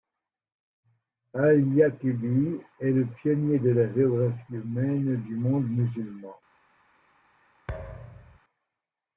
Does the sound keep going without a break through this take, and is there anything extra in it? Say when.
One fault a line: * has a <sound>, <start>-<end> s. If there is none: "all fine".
* has a thud, 7.7-8.4 s